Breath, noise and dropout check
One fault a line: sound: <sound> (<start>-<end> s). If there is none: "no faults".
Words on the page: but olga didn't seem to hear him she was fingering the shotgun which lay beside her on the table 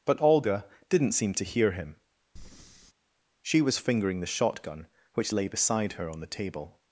sound: breath (2.4-2.9 s)